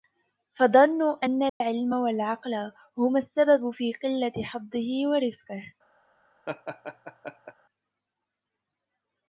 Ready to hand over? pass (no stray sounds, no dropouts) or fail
fail